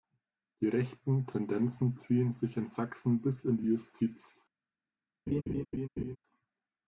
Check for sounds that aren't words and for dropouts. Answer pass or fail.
fail